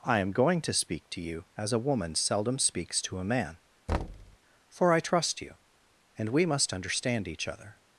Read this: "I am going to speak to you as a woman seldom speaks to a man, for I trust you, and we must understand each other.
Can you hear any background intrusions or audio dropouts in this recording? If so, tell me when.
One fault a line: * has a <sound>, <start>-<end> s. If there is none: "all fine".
* has a thud, 3.9-4.4 s